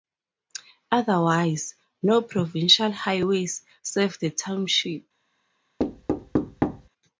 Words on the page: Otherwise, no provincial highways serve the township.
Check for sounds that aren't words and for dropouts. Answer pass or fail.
fail